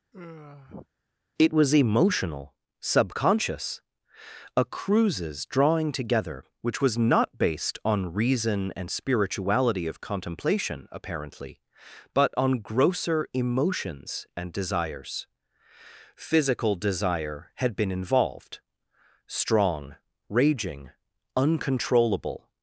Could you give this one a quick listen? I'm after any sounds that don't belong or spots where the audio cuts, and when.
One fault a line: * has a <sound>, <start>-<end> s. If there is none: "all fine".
* has a sigh, 0.1-0.9 s